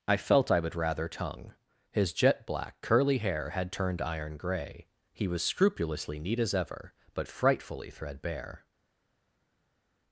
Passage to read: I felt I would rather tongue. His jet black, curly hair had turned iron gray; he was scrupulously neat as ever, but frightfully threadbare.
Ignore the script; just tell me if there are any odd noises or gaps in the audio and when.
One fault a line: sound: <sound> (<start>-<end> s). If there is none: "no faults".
no faults